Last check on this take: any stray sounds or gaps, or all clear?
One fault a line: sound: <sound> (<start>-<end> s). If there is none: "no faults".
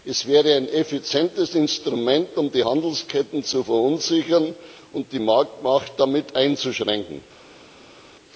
no faults